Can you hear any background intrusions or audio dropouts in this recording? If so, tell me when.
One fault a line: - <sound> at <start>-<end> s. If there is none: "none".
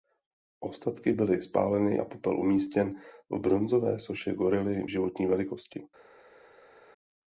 none